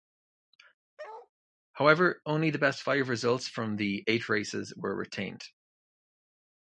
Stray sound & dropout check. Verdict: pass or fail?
fail